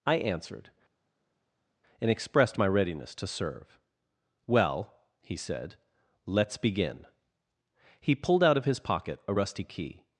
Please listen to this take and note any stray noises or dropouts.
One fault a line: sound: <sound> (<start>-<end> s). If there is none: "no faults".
no faults